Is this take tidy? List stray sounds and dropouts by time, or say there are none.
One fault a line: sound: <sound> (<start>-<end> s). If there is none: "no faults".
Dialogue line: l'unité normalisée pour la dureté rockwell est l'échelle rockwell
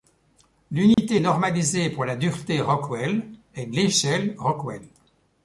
sound: dropout (0.9-1.0 s)